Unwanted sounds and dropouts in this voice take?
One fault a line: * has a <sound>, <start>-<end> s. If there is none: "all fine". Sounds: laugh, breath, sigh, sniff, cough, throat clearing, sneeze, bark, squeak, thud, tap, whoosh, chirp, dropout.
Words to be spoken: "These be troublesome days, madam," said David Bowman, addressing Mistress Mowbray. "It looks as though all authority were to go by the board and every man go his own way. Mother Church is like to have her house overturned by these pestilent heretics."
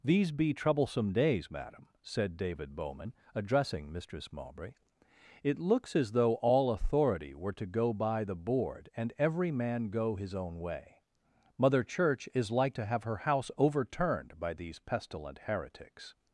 all fine